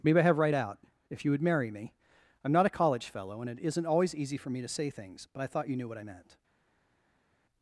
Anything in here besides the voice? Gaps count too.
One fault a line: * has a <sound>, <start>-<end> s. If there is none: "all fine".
all fine